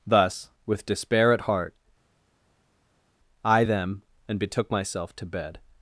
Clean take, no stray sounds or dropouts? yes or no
yes